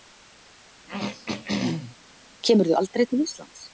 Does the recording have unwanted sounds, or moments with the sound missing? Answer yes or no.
yes